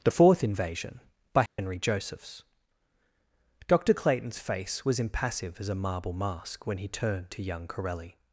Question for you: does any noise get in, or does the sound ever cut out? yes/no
yes